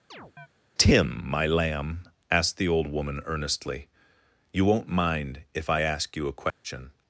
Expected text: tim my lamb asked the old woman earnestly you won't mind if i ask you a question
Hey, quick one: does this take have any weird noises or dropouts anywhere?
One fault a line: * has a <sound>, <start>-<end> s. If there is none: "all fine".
* has a chirp, 0.1-0.5 s
* has a dropout, 6.5-6.6 s